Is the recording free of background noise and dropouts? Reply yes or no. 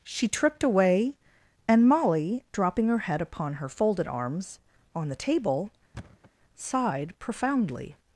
no